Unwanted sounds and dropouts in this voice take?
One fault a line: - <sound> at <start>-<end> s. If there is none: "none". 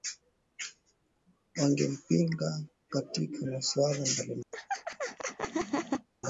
- laugh at 4.5-6.1 s